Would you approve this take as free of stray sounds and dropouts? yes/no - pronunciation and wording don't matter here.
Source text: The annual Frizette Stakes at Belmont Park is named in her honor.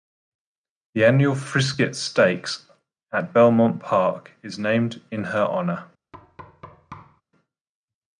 no